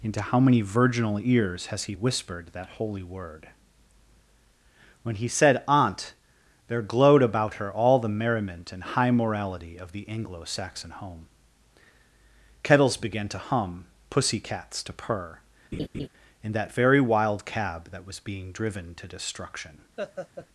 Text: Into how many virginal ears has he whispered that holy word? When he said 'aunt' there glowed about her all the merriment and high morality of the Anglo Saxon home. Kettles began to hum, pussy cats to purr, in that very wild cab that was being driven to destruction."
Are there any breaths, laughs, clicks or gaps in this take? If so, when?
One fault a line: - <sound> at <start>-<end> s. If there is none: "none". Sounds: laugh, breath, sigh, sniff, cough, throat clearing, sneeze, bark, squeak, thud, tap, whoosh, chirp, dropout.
- laugh at 15.7-16.1 s
- laugh at 20.0-20.5 s